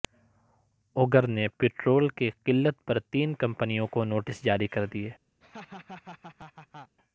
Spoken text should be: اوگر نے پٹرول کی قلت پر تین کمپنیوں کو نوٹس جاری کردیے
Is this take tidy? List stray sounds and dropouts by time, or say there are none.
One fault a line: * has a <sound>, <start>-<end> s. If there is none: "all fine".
* has a laugh, 5.4-7.0 s